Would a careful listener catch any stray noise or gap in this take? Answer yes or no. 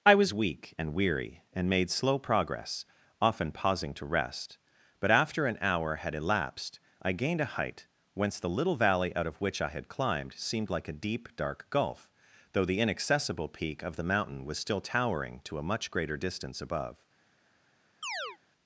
yes